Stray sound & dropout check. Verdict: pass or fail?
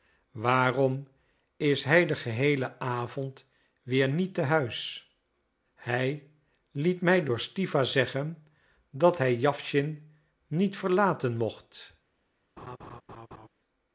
fail